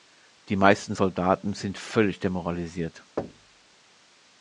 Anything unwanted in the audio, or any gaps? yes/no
yes